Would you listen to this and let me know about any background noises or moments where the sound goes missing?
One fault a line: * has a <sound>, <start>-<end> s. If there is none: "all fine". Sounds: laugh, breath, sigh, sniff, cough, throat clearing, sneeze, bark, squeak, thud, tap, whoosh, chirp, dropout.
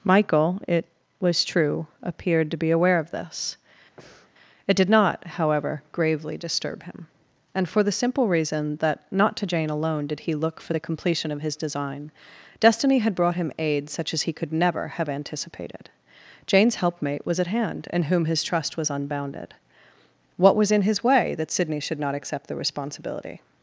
* has a breath, 4.0-4.3 s